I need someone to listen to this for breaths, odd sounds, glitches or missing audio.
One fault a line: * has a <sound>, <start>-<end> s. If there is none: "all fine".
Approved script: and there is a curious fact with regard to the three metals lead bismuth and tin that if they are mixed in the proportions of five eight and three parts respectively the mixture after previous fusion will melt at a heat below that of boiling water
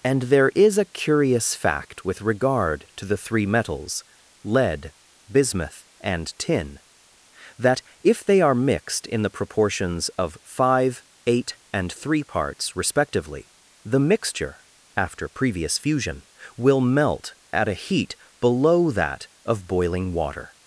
all fine